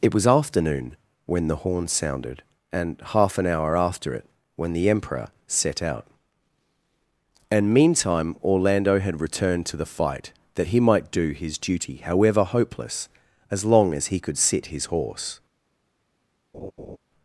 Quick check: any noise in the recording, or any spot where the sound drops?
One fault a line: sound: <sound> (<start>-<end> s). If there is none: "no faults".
sound: laugh (16.5-17.0 s)